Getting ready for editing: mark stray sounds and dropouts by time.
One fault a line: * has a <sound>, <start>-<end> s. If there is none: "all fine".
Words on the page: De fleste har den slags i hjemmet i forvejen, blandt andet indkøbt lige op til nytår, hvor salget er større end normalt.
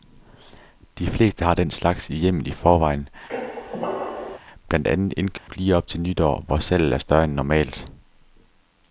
* has a squeak, 3.3-4.4 s
* has a dropout, 5.4-5.5 s